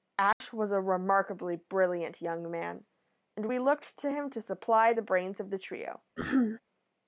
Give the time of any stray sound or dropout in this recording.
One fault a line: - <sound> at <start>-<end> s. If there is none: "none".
- dropout at 0.3-0.4 s
- throat clearing at 6.2-6.6 s